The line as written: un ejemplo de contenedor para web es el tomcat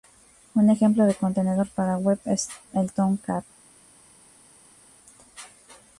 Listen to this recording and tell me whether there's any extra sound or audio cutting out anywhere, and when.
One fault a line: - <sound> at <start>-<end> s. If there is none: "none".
none